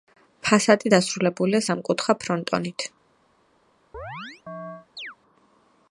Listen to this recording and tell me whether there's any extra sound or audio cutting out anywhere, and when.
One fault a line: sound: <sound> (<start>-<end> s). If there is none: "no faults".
sound: chirp (3.9-5.2 s)